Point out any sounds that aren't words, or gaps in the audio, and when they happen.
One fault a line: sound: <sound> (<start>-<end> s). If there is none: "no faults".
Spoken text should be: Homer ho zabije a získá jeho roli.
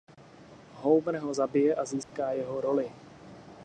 sound: dropout (2.0-2.1 s)